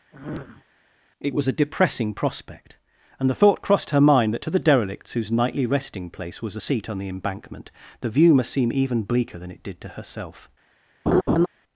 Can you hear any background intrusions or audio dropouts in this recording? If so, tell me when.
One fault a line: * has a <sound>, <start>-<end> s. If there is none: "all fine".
* has a sniff, 0.1-0.6 s
* has a laugh, 11.1-11.5 s